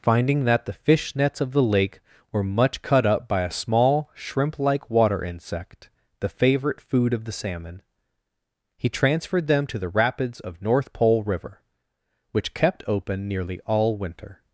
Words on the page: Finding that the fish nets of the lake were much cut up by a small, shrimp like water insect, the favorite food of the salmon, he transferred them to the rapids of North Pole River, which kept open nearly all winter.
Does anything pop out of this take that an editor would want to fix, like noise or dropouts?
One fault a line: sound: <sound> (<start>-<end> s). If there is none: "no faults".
no faults